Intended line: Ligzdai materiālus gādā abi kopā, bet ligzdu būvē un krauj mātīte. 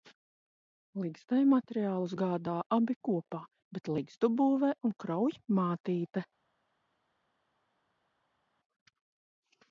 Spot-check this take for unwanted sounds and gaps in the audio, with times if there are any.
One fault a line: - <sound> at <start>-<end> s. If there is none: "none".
none